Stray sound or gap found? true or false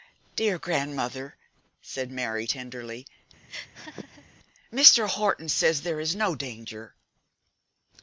true